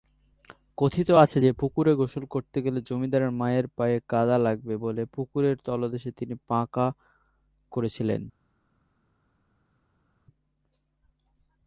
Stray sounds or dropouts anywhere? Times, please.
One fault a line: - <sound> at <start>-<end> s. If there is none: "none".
none